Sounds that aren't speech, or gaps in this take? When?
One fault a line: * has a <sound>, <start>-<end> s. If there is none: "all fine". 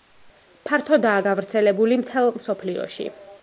all fine